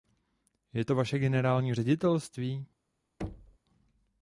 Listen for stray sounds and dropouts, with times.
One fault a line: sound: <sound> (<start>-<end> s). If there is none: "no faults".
sound: thud (3.2-3.6 s)